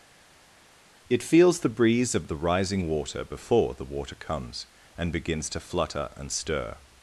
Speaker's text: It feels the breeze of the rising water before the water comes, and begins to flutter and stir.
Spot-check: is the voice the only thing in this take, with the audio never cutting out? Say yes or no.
yes